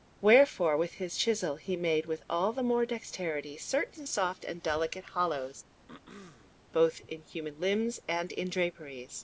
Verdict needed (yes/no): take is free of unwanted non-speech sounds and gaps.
no